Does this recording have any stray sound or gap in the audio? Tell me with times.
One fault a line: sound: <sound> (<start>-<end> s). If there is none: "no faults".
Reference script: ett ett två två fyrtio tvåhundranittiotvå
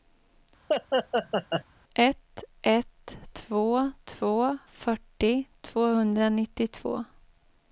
sound: laugh (0.7-1.6 s)